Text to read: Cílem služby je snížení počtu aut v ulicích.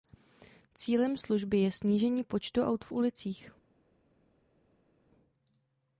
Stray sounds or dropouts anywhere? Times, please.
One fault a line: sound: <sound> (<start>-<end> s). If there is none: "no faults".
no faults